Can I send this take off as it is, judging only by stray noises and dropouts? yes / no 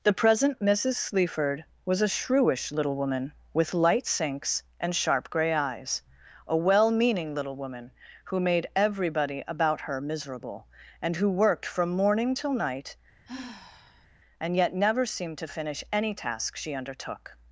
no